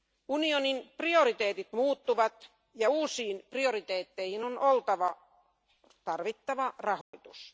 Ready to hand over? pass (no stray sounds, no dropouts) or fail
fail